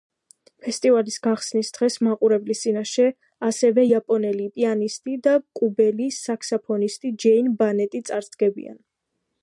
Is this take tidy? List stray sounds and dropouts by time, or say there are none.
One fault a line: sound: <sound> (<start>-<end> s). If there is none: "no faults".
no faults